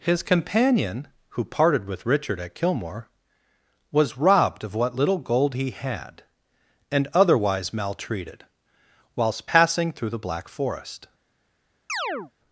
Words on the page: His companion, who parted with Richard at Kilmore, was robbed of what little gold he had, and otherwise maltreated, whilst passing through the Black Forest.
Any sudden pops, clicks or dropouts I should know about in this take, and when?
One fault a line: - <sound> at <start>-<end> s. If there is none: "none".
- chirp at 11.9-12.3 s